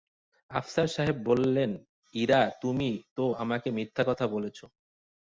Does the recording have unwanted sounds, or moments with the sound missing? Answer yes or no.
no